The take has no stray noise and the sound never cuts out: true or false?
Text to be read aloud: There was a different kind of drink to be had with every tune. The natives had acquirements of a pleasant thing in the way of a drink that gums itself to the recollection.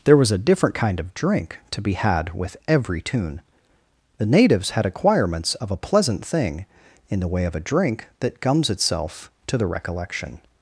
true